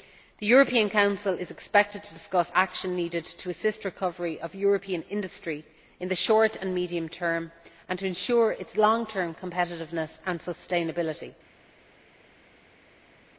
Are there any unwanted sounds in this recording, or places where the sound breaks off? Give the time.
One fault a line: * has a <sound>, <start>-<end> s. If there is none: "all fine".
all fine